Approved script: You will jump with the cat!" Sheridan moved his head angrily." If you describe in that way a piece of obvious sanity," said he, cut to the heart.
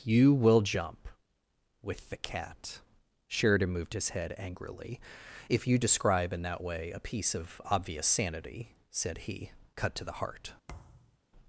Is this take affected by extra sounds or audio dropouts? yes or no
yes